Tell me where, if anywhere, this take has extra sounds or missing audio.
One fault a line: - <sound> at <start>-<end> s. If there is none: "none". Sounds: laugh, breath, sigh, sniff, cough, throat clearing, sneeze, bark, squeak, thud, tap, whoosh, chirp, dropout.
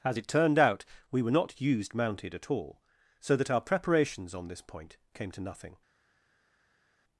none